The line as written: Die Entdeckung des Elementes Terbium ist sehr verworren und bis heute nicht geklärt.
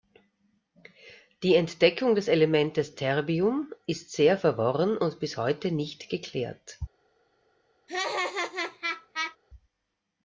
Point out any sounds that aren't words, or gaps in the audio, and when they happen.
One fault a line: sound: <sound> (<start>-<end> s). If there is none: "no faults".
sound: laugh (7.9-9.4 s)